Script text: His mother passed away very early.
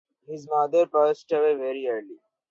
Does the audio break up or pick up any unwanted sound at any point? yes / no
no